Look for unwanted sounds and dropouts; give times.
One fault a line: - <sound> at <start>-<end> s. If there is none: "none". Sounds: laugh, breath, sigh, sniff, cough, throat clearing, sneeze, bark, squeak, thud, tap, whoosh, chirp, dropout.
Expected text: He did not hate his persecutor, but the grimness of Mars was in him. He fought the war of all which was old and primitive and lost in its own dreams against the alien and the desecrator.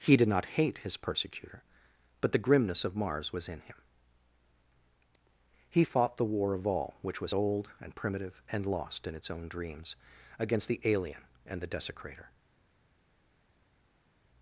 none